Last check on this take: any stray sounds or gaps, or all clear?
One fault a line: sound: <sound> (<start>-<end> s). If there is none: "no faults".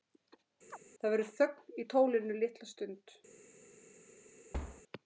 sound: chirp (0.7-0.8 s)
sound: thud (4.5-4.8 s)